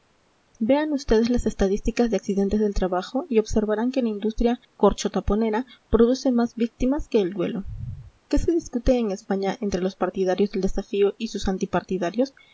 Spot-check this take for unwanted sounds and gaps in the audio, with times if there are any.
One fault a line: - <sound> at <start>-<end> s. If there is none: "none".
none